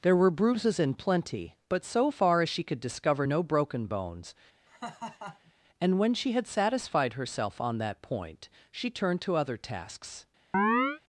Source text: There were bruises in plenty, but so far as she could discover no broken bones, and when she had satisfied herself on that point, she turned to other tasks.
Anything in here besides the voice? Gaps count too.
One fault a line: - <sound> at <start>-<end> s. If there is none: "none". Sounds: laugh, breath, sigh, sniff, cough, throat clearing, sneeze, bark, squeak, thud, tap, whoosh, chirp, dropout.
- laugh at 4.7-5.5 s
- chirp at 10.5-11.0 s